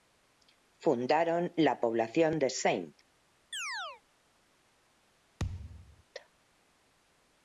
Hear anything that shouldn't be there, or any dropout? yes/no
yes